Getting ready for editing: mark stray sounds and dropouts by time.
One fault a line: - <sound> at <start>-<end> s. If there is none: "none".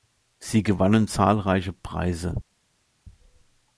none